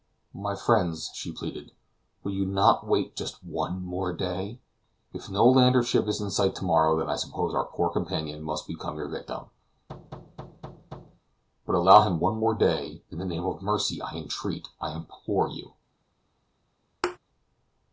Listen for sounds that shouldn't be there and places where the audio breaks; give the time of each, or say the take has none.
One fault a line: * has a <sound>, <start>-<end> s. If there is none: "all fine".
* has a thud, 9.9-11.2 s
* has a thud, 17.0-17.2 s